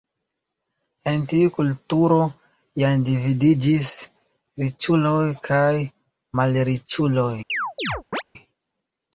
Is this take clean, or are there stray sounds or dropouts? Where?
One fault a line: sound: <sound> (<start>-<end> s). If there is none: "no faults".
sound: chirp (7.5-8.2 s)